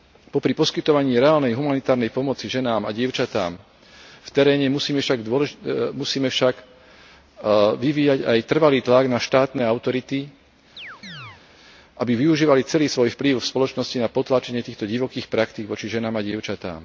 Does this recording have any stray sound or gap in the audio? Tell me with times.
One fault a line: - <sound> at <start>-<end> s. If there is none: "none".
- chirp at 10.8-11.4 s